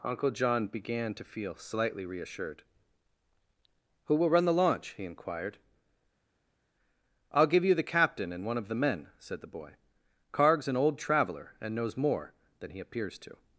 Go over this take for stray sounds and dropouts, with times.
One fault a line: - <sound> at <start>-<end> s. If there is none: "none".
none